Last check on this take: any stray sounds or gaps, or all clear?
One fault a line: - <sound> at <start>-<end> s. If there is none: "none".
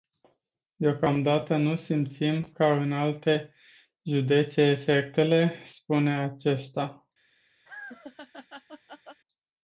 - laugh at 7.7-9.2 s